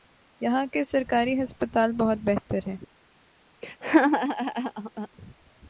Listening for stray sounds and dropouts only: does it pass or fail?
fail